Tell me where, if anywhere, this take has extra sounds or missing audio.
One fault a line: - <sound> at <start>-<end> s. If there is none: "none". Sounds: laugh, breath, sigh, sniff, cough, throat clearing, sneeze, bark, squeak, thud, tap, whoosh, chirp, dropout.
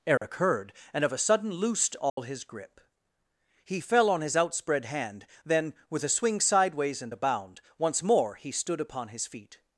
- dropout at 0.2-0.2 s
- dropout at 2.1-2.2 s